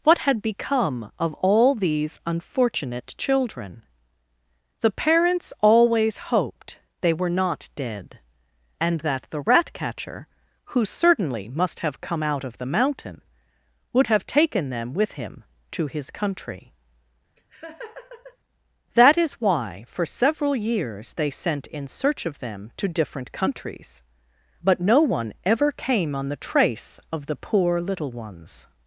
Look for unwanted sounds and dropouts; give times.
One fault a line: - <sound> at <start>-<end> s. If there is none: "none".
- laugh at 17.4-18.4 s